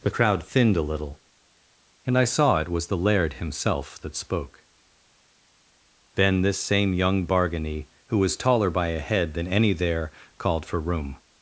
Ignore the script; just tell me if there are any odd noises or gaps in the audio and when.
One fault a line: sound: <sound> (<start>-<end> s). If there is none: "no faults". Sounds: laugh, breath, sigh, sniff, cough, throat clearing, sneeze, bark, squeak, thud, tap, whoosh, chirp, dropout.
no faults